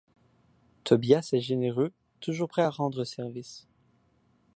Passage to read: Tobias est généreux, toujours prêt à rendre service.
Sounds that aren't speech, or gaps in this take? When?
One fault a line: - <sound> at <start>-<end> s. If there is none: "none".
none